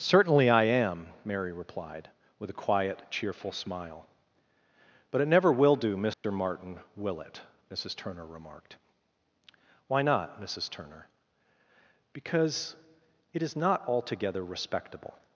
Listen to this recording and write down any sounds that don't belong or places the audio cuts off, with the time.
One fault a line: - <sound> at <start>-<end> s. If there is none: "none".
- dropout at 6.1-6.2 s